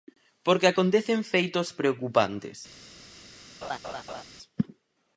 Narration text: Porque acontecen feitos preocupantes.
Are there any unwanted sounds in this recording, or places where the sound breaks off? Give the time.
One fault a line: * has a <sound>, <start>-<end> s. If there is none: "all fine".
* has a laugh, 3.6-4.2 s